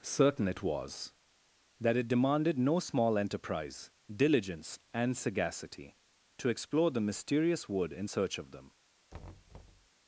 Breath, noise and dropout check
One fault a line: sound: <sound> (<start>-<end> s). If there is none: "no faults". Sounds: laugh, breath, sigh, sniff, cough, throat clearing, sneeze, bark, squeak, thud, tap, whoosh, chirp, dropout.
sound: thud (9.1-9.9 s)